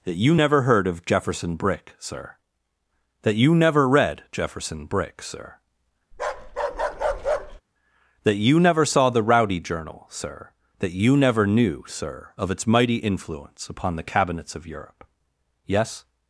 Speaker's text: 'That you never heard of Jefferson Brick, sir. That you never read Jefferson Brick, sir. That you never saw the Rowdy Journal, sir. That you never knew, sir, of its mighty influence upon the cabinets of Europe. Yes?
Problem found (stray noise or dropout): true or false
true